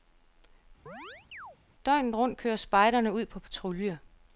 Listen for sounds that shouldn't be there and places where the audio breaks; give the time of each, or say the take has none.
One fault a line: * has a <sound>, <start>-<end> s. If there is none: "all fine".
* has a chirp, 0.9-1.6 s